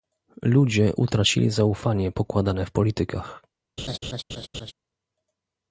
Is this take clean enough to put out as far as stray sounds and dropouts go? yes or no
no